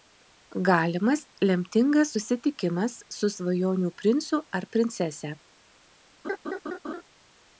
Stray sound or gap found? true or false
true